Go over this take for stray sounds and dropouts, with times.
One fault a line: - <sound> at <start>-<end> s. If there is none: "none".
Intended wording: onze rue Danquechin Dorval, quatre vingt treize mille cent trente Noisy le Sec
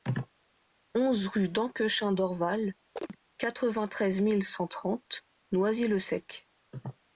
- chirp at 3.0-3.2 s